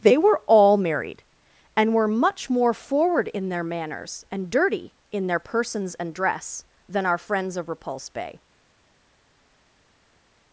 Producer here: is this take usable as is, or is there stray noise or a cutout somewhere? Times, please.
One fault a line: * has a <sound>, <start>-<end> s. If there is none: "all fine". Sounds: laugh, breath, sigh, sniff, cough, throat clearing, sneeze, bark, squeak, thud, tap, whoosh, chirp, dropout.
all fine